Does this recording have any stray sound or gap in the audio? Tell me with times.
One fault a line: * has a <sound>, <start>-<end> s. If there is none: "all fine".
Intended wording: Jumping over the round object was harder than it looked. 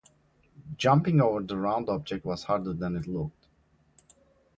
all fine